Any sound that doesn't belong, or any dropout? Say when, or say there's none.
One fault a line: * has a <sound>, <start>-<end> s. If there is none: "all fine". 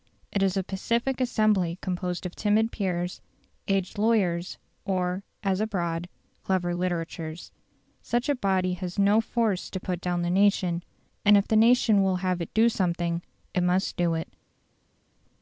all fine